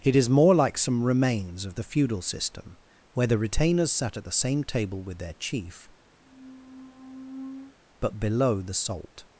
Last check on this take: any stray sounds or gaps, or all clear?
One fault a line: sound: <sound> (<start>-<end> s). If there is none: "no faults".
sound: squeak (6.2-7.7 s)